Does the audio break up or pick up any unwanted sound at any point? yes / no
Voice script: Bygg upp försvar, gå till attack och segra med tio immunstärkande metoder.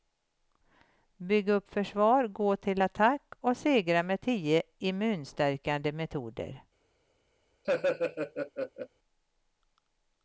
yes